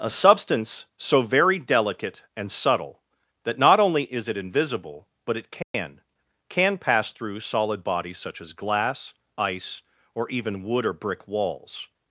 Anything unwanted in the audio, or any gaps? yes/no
yes